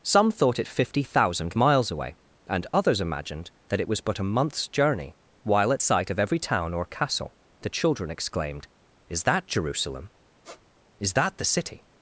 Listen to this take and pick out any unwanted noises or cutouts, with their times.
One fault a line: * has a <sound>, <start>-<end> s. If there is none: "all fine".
* has a squeak, 10.4-10.6 s